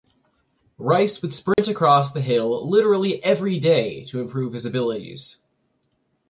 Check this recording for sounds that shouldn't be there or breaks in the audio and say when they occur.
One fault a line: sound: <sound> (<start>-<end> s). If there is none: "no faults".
sound: dropout (1.5-1.6 s)